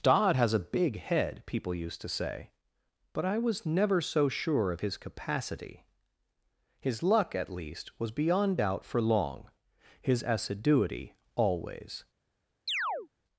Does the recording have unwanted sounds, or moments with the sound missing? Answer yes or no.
yes